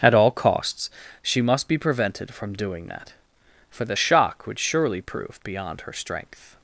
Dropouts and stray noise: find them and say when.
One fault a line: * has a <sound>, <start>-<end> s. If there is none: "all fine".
all fine